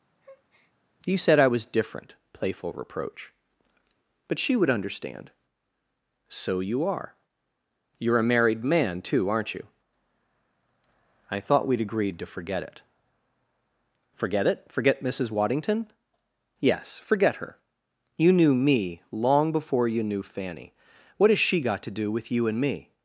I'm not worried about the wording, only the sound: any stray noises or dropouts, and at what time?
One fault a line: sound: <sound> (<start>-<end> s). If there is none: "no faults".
sound: breath (0.2-0.7 s)